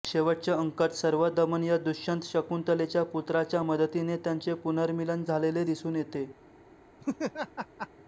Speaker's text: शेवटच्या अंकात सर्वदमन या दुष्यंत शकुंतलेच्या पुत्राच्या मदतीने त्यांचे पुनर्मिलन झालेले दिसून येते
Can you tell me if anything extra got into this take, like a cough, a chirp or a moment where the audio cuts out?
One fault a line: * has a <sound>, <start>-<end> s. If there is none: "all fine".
* has a laugh, 7.0-7.9 s